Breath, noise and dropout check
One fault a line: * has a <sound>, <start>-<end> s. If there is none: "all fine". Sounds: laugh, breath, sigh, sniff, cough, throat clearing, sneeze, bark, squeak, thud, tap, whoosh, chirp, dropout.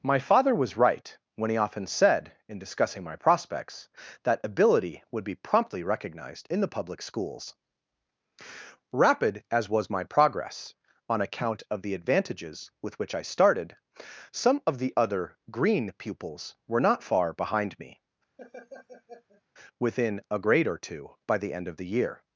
* has a laugh, 18.4-19.4 s